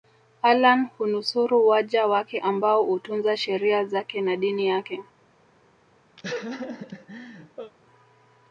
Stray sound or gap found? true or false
true